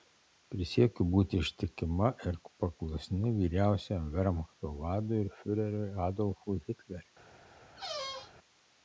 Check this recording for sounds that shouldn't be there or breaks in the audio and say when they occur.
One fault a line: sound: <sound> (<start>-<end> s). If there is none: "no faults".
sound: squeak (7.8-8.3 s)